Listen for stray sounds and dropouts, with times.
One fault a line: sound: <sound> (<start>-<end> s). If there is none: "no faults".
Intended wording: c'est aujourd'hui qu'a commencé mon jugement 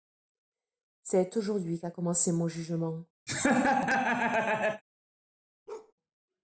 sound: laugh (3.3-4.8 s)
sound: bark (5.7-5.9 s)